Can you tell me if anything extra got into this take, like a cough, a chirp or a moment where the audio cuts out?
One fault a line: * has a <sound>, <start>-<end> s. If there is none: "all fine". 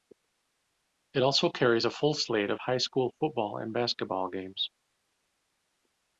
all fine